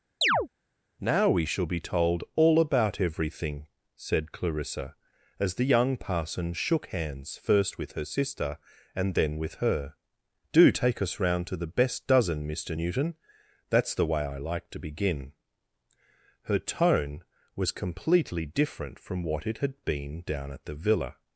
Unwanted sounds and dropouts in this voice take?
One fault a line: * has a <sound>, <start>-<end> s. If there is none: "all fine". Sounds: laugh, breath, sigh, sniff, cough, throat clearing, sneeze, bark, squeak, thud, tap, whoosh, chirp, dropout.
* has a chirp, 0.2-0.5 s